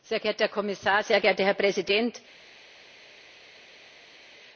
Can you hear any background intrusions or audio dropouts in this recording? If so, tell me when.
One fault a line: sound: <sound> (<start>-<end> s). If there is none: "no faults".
no faults